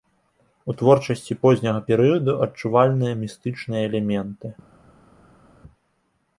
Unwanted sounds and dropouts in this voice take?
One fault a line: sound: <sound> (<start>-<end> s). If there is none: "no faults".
no faults